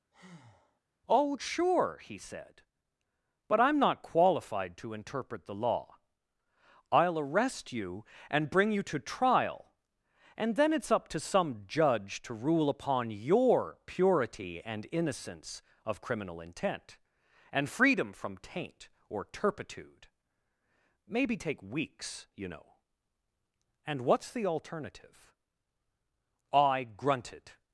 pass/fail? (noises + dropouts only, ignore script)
fail